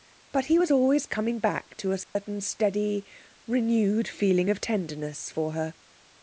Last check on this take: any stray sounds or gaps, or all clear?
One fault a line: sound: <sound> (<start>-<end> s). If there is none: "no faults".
sound: dropout (2.0-2.2 s)